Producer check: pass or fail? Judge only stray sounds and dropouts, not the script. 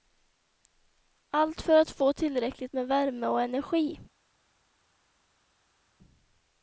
pass